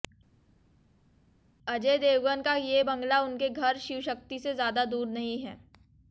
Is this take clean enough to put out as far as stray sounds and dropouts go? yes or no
yes